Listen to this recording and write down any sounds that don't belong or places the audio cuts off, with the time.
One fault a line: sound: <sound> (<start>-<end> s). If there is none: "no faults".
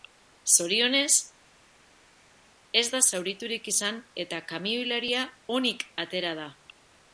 no faults